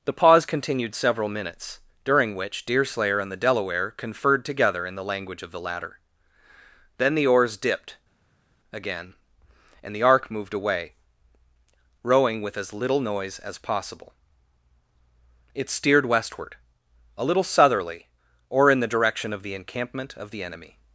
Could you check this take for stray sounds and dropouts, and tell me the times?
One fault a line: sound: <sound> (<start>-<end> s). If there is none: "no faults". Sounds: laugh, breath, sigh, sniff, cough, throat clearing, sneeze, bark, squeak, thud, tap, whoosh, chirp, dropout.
no faults